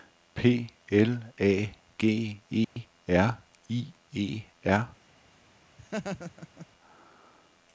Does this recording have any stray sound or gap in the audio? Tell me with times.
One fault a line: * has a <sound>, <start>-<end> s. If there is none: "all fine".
* has a dropout, 2.6-2.8 s
* has a laugh, 5.8-6.7 s